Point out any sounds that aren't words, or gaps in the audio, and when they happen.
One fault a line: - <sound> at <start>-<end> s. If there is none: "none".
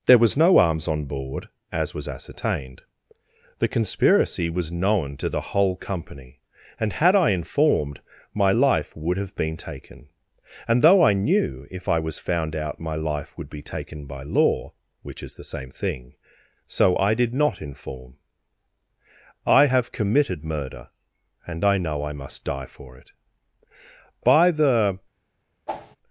- whoosh at 25.7-26.0 s